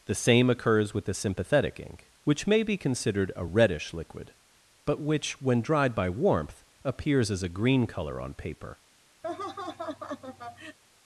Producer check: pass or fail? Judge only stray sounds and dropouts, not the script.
fail